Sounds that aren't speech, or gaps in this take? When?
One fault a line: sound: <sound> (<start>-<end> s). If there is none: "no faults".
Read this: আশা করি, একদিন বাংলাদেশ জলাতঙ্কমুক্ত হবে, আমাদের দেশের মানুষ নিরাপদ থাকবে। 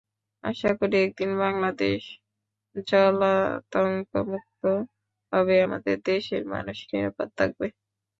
no faults